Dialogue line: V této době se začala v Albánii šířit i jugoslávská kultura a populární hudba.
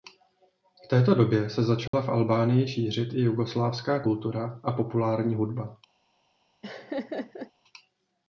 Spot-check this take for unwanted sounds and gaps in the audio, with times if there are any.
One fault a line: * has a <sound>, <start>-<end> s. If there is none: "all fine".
* has a dropout, 1.9-1.9 s
* has a laugh, 6.6-7.5 s